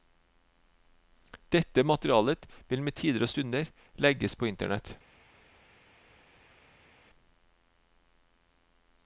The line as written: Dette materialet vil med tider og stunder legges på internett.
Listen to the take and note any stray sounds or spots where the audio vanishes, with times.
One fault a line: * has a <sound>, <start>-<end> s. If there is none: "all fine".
all fine